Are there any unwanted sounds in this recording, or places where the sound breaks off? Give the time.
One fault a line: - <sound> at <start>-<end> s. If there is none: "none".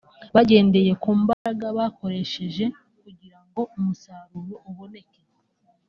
- dropout at 1.3-1.5 s